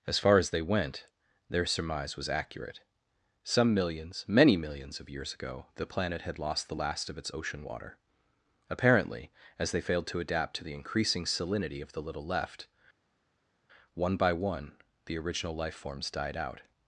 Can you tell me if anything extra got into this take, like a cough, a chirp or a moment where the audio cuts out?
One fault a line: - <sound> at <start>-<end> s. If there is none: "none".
none